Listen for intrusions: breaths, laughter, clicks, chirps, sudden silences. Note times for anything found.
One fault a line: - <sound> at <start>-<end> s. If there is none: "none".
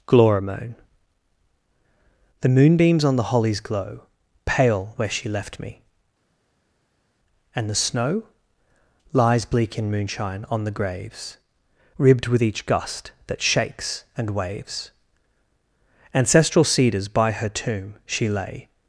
none